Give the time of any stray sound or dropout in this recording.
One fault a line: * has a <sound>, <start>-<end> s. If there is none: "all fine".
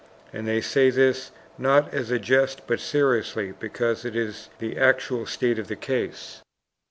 all fine